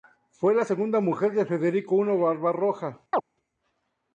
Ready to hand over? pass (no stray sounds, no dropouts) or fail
fail